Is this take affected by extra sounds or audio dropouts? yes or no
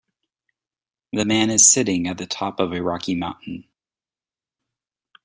no